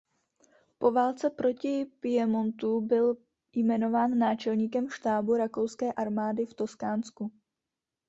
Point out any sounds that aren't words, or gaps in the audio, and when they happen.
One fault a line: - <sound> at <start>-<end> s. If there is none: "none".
none